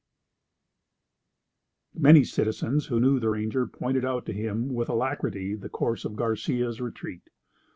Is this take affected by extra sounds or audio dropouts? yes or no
no